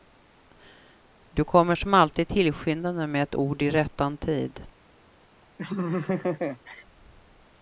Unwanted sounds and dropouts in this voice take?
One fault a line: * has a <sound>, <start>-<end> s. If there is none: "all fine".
* has a laugh, 5.6-6.8 s